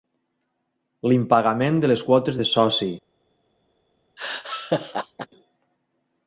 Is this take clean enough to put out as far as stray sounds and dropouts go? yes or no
no